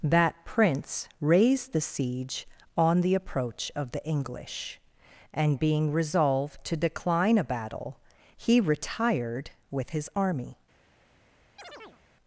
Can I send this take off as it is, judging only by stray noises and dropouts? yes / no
no